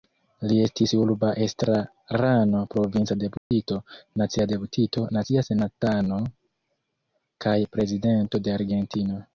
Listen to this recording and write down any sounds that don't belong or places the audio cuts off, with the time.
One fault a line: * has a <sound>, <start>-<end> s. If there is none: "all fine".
* has a dropout, 3.4-3.5 s